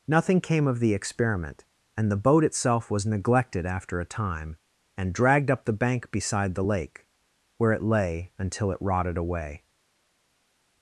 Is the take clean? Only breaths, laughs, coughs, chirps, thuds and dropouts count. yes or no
yes